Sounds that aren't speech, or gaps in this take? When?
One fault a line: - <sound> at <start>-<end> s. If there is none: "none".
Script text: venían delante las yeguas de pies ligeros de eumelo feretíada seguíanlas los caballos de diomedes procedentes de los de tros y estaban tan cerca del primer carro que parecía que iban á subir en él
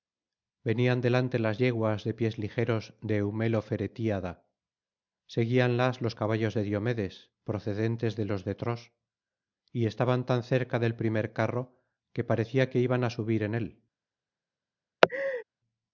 - laugh at 15.0-15.4 s